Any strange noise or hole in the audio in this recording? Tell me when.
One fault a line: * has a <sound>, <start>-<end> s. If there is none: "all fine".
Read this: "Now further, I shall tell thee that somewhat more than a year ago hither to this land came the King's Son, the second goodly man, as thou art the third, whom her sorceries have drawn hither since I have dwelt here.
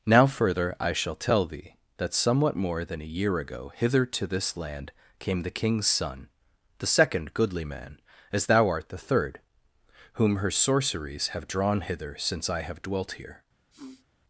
* has a sniff, 13.7-14.1 s